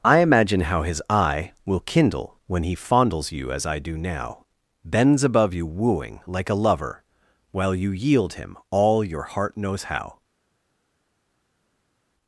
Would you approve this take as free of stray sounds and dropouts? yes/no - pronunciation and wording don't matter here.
yes